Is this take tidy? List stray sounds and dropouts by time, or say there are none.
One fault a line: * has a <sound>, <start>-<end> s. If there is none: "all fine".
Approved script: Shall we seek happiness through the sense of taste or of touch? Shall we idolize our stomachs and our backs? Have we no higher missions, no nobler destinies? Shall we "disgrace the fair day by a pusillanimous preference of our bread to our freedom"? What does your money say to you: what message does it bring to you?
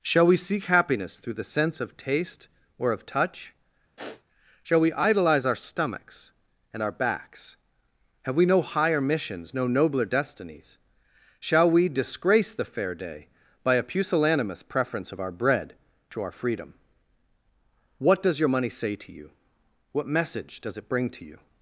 * has a sniff, 4.0-4.2 s